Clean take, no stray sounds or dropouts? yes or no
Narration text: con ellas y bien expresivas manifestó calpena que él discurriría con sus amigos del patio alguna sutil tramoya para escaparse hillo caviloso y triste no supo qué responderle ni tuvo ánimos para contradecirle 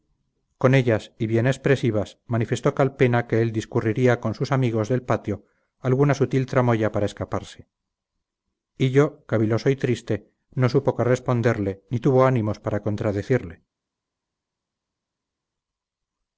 yes